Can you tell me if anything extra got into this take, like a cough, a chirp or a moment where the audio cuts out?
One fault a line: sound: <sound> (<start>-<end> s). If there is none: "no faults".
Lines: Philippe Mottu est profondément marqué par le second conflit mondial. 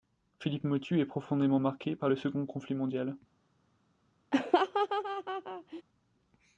sound: laugh (4.3-5.8 s)